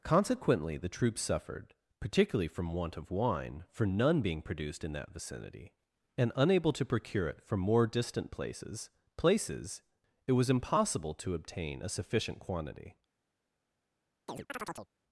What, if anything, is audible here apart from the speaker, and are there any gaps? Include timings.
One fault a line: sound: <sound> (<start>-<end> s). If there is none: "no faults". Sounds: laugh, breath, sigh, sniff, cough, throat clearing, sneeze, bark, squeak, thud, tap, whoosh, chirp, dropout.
sound: chirp (14.3-14.9 s)